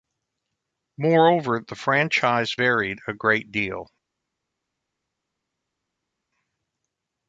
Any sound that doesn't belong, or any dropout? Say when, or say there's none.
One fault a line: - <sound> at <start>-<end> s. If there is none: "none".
none